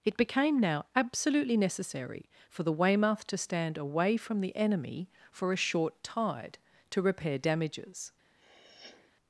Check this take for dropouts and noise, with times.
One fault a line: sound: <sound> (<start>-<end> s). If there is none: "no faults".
sound: sniff (8.4-9.1 s)